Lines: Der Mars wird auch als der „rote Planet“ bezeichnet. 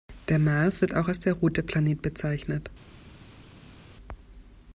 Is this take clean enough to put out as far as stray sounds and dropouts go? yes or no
yes